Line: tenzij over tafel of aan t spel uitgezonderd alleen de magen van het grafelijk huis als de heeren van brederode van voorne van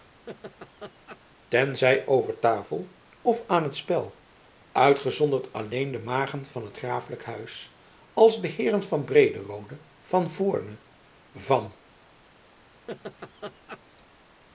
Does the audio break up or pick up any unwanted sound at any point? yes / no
yes